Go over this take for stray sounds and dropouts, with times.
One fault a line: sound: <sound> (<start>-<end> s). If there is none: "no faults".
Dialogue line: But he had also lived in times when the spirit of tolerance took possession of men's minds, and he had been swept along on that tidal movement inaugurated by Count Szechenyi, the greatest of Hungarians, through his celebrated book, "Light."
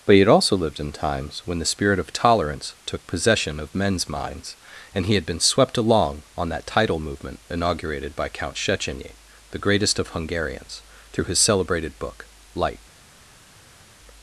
no faults